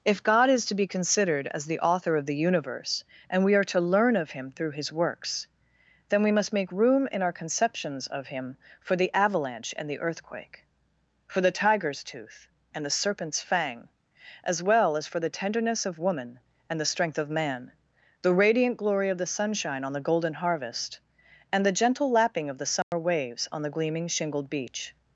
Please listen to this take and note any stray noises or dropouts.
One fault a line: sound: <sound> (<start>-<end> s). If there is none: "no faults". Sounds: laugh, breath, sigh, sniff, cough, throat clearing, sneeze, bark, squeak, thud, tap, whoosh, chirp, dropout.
sound: dropout (22.8-22.9 s)